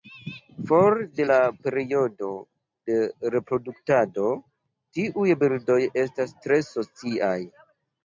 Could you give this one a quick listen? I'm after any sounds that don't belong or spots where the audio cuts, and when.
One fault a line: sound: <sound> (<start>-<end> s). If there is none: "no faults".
no faults